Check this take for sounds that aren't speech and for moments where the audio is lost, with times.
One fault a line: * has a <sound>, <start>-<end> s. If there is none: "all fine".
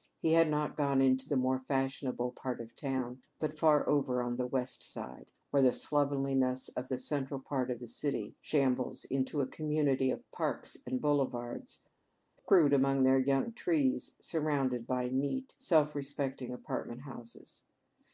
all fine